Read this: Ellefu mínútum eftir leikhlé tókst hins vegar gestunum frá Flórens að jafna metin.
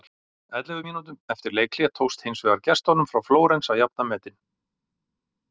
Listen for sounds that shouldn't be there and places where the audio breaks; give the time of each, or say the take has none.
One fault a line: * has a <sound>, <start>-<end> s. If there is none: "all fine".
all fine